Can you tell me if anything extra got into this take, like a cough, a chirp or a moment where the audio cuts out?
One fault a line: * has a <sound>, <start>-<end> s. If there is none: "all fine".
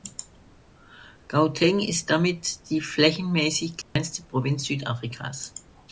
* has a dropout, 3.8-4.0 s